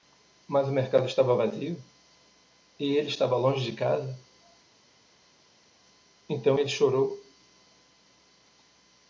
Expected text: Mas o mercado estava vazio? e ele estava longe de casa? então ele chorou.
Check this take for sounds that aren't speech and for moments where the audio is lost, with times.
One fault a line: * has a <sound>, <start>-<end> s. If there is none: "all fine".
all fine